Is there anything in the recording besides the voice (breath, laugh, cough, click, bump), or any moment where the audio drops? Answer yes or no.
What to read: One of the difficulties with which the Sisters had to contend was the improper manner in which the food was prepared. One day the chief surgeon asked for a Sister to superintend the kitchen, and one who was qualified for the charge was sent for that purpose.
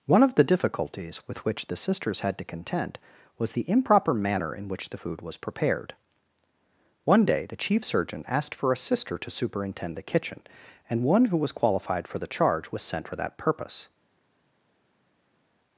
no